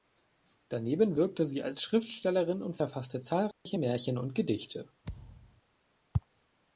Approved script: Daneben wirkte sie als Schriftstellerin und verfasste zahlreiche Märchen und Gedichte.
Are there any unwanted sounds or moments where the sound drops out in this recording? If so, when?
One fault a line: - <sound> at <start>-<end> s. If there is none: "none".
- dropout at 3.5-3.7 s
- thud at 5.0-5.6 s